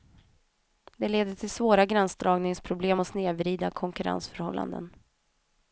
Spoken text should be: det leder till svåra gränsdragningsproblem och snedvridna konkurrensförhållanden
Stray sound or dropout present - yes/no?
no